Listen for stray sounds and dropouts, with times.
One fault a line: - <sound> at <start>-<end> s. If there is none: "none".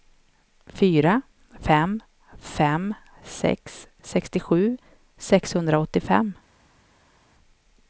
none